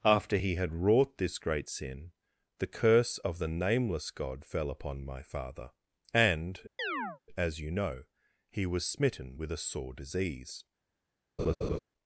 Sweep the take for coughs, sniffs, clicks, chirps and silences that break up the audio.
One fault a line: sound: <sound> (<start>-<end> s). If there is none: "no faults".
sound: chirp (6.8-7.2 s)
sound: laugh (11.4-11.8 s)